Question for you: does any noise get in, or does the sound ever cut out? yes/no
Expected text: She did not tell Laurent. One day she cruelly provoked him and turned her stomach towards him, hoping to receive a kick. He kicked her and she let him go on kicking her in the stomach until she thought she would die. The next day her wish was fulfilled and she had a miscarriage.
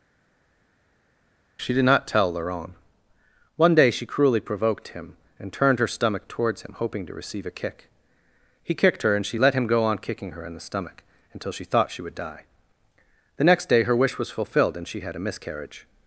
no